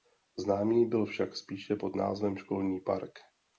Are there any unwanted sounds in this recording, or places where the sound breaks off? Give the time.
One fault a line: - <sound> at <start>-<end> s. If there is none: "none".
none